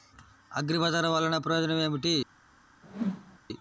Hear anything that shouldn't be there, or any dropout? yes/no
yes